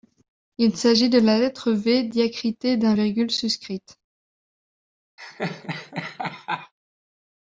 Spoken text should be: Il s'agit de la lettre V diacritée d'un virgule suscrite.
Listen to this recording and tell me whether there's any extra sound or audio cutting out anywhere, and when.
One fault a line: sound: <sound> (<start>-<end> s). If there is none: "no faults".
sound: laugh (5.2-6.7 s)